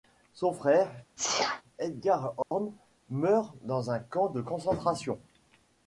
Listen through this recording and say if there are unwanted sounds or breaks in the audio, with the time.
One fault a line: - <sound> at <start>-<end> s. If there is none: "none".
- sneeze at 1.2-1.6 s
- dropout at 2.4-2.5 s